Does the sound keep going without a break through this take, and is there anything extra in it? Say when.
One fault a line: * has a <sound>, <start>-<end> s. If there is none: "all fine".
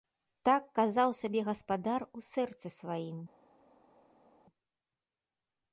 all fine